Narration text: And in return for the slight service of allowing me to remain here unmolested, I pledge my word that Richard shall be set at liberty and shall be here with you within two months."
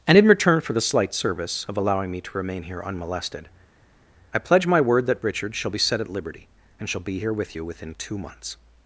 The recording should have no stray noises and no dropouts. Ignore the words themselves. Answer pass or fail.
pass